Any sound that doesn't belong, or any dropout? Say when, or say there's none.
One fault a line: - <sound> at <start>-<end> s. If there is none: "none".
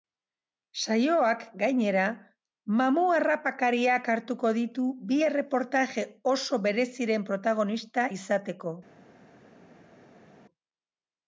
none